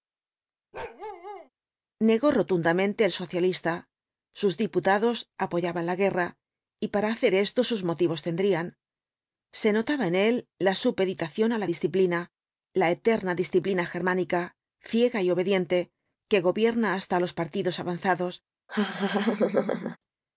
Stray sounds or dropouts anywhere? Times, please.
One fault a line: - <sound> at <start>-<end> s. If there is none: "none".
- bark at 0.7-1.5 s
- laugh at 18.7-20.0 s